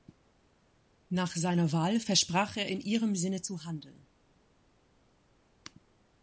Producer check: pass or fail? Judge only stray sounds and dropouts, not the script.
pass